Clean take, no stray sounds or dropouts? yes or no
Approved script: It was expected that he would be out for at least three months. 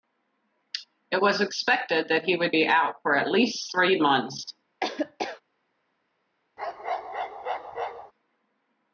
no